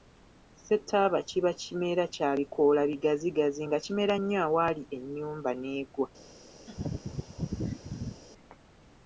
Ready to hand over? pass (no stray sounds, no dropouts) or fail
fail